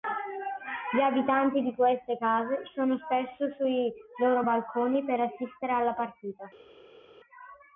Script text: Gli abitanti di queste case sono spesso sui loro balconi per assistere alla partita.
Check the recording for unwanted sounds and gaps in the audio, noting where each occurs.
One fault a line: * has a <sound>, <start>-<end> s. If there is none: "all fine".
all fine